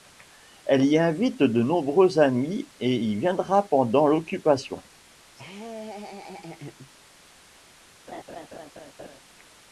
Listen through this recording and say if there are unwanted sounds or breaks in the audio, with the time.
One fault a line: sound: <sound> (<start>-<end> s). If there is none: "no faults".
sound: laugh (5.3-6.9 s)
sound: laugh (8.1-9.2 s)